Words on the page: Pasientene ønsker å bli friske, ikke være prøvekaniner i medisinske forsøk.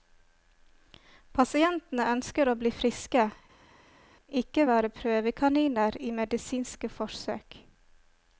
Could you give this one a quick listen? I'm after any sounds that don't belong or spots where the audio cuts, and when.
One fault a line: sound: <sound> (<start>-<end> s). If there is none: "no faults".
no faults